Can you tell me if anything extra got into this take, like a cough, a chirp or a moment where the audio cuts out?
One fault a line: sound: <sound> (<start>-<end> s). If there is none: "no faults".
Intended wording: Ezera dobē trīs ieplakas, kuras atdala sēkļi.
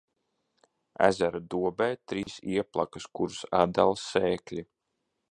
sound: dropout (2.2-2.3 s)